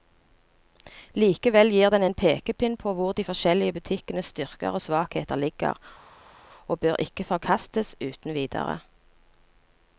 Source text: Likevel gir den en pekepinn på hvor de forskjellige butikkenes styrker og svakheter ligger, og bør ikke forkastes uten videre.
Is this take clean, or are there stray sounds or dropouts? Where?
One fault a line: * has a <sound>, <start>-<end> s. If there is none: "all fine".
all fine